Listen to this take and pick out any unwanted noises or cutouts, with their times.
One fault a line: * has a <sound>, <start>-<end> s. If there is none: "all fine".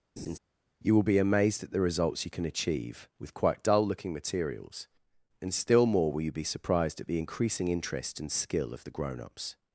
* has a laugh, 0.2-0.4 s